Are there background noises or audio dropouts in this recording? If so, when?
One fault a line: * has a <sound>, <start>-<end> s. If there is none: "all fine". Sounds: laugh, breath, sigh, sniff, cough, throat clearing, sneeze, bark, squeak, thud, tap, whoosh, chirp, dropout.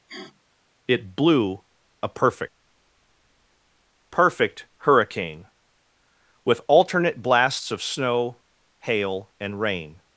* has a sniff, 0.1-0.4 s